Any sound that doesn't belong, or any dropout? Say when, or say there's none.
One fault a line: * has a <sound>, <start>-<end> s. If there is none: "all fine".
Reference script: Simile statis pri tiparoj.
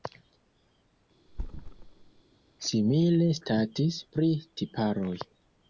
* has a thud, 1.3-2.2 s